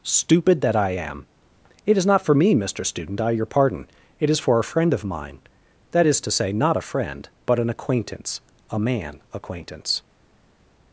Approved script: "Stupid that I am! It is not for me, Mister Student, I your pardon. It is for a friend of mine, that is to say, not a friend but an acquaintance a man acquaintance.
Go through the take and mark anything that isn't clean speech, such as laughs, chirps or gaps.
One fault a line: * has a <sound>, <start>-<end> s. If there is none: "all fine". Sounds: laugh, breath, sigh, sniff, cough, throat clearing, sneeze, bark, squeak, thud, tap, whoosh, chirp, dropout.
all fine